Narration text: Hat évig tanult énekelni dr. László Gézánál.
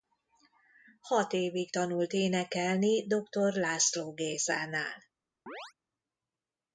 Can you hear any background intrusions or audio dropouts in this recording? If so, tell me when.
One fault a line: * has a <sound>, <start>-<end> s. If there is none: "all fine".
* has a chirp, 5.5-5.7 s